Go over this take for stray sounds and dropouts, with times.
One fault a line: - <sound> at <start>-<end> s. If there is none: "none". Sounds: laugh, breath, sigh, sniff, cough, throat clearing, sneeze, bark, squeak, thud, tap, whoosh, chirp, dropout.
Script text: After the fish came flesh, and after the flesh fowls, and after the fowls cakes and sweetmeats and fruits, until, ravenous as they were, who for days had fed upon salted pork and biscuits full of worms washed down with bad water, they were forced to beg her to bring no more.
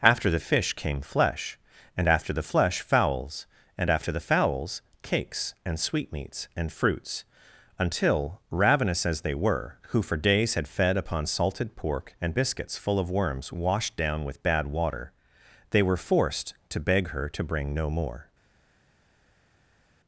none